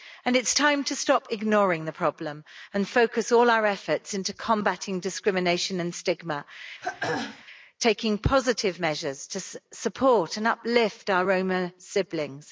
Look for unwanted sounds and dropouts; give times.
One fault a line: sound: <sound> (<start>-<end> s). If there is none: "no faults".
sound: throat clearing (6.8-7.4 s)